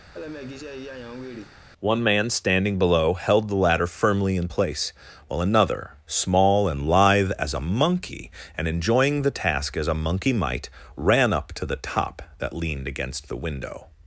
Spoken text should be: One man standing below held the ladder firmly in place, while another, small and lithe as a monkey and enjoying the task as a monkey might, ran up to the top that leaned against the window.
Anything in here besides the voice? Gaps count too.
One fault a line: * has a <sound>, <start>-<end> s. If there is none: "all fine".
* has a laugh, 0.1-1.6 s